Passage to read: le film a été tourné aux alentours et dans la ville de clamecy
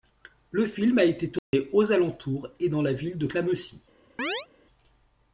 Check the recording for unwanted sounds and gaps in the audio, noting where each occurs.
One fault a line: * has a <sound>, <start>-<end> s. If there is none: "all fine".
* has a dropout, 1.4-1.5 s
* has a chirp, 4.2-4.5 s